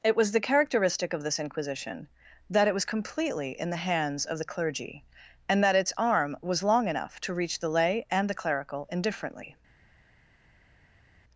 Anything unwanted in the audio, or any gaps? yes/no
no